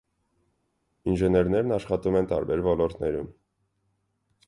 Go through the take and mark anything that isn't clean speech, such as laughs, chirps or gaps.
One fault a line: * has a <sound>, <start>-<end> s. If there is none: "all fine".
all fine